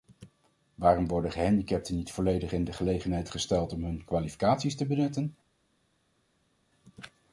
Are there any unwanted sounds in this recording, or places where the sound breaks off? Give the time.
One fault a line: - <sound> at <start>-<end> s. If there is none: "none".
none